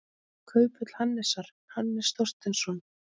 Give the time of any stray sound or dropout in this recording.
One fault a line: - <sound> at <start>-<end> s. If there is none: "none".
none